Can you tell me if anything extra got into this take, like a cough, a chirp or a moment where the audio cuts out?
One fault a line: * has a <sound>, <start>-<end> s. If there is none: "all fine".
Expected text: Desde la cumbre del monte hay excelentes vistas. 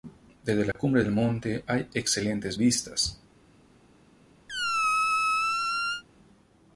* has a dropout, 0.7-0.8 s
* has a squeak, 4.5-6.0 s